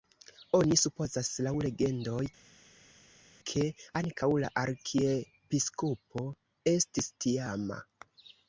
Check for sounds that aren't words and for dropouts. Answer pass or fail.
pass